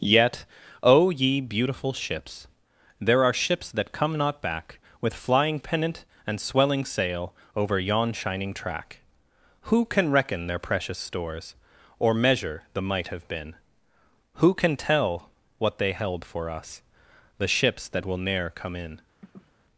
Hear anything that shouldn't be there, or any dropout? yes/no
yes